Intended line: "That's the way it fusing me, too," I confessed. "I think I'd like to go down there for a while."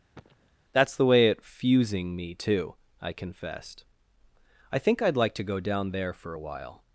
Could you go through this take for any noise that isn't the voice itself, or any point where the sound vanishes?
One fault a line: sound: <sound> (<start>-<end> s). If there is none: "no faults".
sound: cough (0.1-0.5 s)